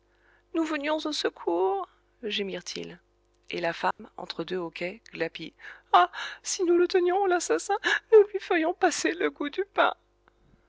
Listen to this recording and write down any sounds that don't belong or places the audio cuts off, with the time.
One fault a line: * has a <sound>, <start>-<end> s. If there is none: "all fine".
* has a dropout, 3.9-4.0 s